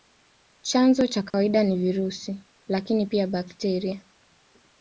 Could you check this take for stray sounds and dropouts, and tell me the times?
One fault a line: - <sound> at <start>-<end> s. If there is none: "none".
- dropout at 1.3-1.3 s